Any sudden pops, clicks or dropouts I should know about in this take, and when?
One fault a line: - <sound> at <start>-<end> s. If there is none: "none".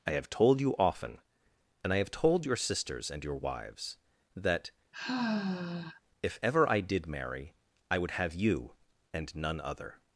- sigh at 4.9-6.0 s